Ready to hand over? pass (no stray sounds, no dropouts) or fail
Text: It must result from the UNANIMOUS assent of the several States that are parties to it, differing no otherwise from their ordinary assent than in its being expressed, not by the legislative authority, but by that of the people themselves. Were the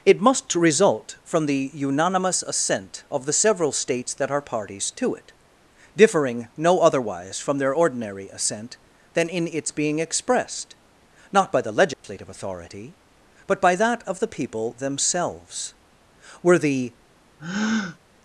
fail